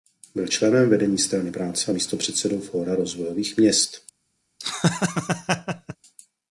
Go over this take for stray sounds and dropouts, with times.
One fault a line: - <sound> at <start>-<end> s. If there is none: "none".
- laugh at 4.6-6.0 s